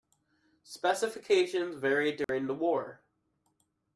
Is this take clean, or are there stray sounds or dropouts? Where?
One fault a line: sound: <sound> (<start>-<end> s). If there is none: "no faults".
sound: dropout (2.2-2.3 s)